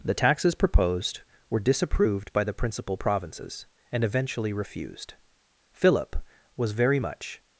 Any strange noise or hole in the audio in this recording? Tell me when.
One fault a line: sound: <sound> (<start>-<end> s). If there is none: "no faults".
no faults